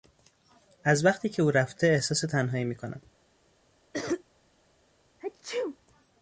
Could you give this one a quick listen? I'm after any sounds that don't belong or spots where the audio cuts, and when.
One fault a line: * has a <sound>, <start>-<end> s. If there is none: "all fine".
* has a cough, 3.9-4.2 s
* has a sneeze, 5.2-5.8 s